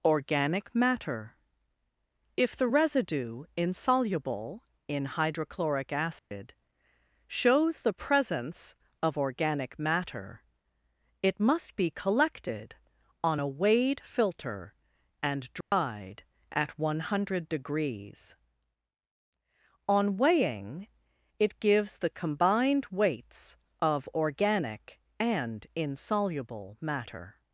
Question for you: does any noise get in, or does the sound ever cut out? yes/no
yes